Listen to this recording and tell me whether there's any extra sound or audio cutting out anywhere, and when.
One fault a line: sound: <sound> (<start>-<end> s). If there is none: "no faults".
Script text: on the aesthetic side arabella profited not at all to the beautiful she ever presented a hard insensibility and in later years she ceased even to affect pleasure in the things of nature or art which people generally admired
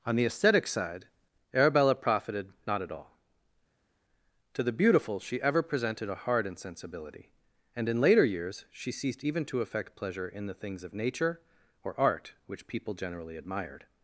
no faults